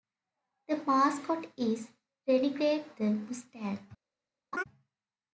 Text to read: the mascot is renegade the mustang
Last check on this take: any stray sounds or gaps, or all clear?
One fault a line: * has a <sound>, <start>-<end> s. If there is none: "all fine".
* has a laugh, 4.5-4.6 s